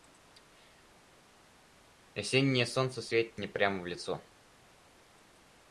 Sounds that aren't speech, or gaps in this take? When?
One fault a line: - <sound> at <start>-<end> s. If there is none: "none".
none